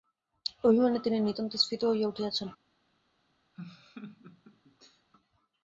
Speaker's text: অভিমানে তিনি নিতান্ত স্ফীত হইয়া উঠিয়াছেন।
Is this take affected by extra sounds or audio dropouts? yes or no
yes